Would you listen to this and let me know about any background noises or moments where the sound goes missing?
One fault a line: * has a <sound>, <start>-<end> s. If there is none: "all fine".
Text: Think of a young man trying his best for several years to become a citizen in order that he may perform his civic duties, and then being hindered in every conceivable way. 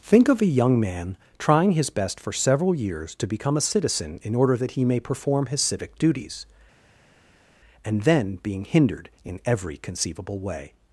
all fine